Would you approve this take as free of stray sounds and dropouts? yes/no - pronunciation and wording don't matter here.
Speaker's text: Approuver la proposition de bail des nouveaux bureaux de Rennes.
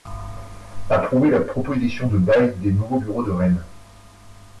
yes